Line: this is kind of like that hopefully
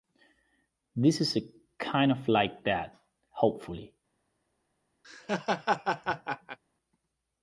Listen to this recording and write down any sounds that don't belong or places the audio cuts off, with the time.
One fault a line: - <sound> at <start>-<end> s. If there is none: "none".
- laugh at 5.0-6.6 s